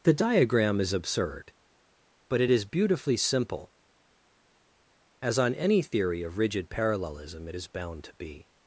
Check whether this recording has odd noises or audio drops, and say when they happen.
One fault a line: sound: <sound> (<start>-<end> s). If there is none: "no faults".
no faults